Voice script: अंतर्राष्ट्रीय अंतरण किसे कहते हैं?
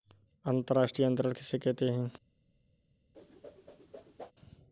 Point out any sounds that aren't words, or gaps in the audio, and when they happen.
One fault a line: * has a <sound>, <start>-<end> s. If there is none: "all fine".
* has a whoosh, 3.1-4.3 s